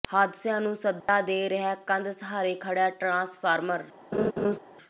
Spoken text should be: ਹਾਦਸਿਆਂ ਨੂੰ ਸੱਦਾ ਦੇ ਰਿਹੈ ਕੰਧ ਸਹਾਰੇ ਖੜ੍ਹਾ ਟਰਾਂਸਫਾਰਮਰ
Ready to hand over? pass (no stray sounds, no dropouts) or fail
fail